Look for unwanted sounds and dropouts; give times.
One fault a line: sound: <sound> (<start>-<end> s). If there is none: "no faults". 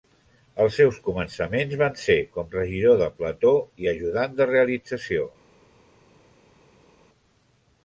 no faults